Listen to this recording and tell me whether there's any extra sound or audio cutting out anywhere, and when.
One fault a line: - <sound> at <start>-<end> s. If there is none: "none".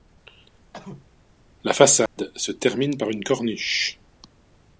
- cough at 0.7-1.1 s
- dropout at 2.1-2.2 s